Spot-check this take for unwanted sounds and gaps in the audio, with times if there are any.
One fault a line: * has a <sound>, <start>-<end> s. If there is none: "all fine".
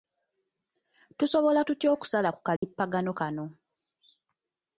* has a dropout, 2.6-2.6 s